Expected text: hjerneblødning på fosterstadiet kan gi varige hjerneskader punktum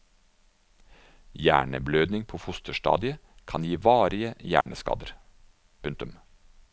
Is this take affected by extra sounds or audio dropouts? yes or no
yes